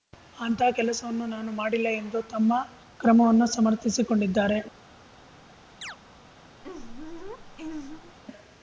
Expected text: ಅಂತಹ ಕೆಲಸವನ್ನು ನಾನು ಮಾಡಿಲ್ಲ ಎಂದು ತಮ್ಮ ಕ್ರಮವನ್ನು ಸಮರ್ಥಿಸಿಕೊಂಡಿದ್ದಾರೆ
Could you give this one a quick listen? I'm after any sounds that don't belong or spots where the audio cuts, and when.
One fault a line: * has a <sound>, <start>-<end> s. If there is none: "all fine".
* has a chirp, 5.8-6.0 s
* has a laugh, 6.6-8.2 s